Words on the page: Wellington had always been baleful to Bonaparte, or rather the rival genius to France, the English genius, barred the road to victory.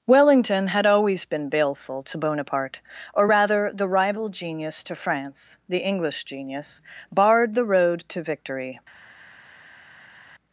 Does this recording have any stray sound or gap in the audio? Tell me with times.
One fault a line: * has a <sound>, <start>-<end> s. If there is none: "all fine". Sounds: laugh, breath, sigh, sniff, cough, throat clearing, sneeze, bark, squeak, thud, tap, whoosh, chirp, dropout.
all fine